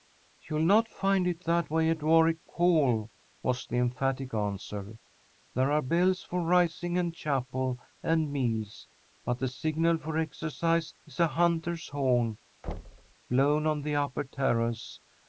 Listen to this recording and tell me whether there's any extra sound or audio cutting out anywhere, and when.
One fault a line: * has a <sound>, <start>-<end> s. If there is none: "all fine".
* has a thud, 12.6-13.1 s